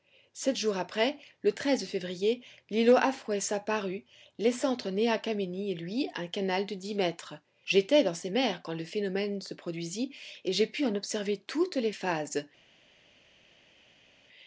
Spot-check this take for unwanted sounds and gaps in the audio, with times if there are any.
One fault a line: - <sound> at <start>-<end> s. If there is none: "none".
none